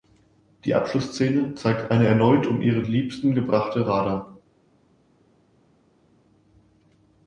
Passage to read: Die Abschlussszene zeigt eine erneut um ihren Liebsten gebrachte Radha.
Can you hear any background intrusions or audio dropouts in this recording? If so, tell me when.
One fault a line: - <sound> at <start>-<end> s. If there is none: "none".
none